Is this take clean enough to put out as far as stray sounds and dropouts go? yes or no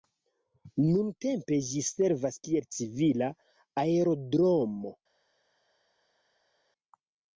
yes